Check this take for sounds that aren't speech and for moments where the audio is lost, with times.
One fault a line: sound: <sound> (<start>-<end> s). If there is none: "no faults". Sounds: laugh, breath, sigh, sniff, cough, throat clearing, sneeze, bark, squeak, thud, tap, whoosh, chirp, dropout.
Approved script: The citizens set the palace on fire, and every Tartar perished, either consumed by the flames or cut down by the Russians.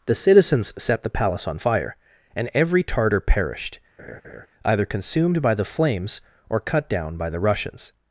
sound: laugh (4.0-4.5 s)